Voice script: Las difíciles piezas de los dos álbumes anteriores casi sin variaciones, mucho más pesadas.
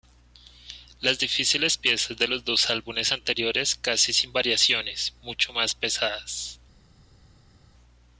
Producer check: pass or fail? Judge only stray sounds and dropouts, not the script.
pass